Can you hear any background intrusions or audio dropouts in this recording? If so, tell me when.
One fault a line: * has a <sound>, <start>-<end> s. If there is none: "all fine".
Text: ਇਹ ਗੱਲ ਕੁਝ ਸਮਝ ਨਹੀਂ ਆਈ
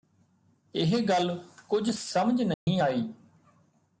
* has a dropout, 2.5-2.7 s